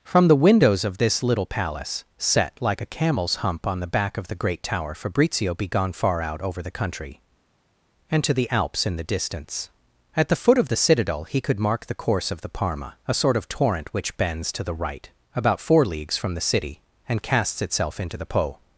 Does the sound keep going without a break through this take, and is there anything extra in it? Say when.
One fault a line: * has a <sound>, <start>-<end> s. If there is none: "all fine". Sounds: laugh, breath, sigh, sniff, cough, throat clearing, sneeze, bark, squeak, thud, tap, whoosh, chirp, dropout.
all fine